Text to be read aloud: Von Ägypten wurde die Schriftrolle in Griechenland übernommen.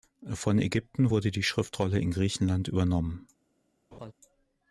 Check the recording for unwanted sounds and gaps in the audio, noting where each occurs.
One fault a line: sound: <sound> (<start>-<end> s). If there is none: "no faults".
sound: laugh (3.9-4.1 s)